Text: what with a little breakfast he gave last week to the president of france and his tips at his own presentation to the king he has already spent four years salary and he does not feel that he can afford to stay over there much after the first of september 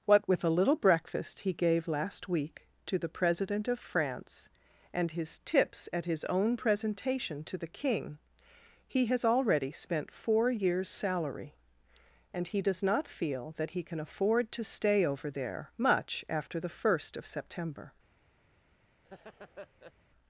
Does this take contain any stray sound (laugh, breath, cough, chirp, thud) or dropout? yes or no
yes